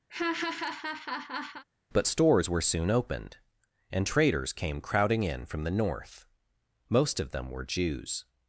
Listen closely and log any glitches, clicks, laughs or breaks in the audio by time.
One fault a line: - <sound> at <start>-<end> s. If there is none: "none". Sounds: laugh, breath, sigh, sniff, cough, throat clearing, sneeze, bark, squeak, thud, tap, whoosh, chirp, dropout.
- laugh at 0.1-1.6 s